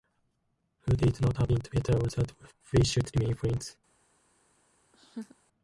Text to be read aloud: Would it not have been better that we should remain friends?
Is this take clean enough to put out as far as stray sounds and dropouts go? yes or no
no